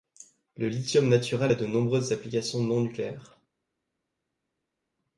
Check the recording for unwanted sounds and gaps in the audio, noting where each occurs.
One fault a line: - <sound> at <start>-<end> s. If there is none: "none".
none